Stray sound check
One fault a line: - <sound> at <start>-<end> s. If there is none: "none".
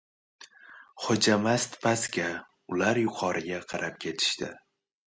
none